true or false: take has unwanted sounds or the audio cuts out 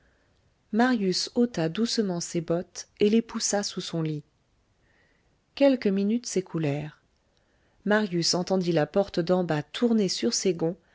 false